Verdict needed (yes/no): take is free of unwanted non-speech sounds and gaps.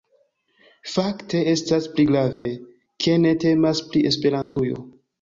no